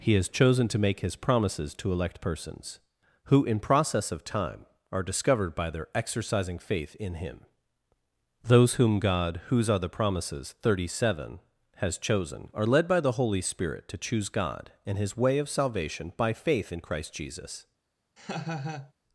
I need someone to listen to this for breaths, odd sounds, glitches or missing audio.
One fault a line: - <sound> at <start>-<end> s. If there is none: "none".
- laugh at 18.2-18.9 s